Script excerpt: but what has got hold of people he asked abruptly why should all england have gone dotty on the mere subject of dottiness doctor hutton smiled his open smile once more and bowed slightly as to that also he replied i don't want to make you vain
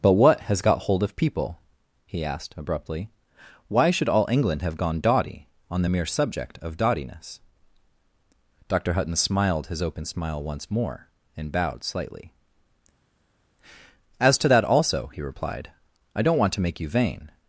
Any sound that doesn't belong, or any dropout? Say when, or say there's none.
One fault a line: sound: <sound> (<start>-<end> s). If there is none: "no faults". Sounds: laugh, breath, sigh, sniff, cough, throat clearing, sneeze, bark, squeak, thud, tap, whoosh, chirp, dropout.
no faults